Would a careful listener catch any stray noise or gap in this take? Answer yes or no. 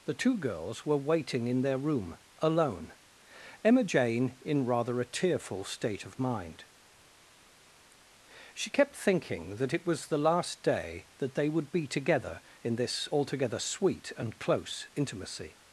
no